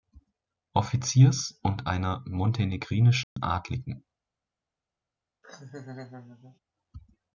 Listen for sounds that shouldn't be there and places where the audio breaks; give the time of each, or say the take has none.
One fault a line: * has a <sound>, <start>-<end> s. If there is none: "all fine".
* has a dropout, 3.2-3.4 s
* has a laugh, 5.4-6.6 s